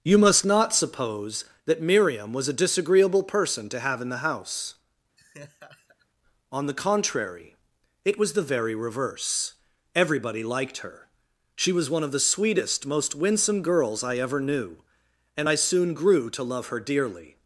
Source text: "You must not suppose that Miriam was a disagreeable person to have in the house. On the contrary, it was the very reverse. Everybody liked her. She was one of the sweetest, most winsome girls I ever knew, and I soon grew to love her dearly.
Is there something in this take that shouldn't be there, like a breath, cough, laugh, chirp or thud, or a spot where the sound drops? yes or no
yes